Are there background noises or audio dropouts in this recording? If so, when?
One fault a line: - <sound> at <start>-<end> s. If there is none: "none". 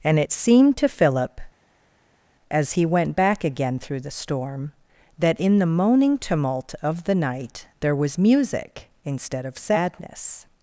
none